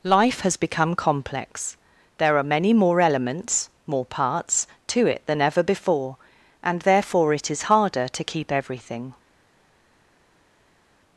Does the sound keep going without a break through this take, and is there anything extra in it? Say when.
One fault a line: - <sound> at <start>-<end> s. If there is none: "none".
none